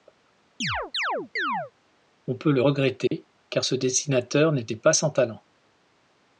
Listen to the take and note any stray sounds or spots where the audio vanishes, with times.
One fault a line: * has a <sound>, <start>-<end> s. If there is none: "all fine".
* has a chirp, 0.6-1.7 s
* has a dropout, 3.1-3.1 s